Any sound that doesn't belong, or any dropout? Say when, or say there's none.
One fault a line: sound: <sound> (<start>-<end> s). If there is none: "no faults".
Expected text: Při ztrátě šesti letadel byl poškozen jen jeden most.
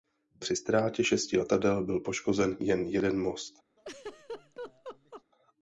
sound: laugh (3.8-5.2 s)